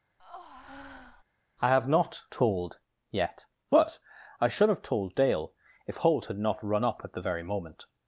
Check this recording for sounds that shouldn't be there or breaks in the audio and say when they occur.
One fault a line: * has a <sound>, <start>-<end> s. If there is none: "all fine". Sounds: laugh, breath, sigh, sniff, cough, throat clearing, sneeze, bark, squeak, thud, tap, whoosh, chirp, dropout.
* has a breath, 0.2-1.2 s